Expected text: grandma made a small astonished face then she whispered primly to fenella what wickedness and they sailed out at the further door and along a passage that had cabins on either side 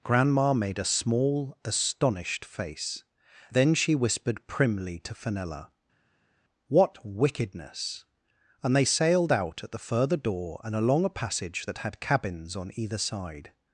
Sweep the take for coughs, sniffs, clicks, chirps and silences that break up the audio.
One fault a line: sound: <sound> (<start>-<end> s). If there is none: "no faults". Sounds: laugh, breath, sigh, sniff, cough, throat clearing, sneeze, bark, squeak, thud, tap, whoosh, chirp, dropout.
no faults